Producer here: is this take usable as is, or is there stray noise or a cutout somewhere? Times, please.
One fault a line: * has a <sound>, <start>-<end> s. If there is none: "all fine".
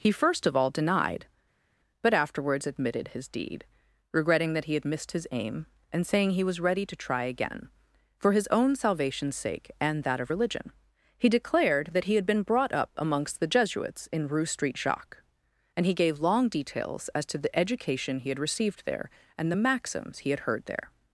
all fine